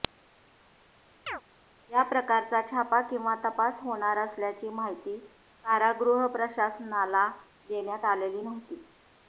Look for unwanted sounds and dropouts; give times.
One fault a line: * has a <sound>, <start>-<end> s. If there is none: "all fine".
* has a chirp, 1.3-1.4 s